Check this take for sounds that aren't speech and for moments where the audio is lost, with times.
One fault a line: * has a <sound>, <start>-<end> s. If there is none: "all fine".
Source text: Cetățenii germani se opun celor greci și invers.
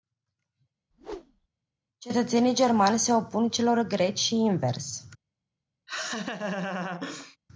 * has a whoosh, 0.9-1.5 s
* has a laugh, 5.9-7.4 s